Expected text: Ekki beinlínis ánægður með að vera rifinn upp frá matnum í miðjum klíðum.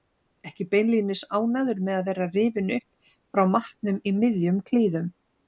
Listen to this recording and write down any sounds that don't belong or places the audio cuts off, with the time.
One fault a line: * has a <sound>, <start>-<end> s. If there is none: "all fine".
all fine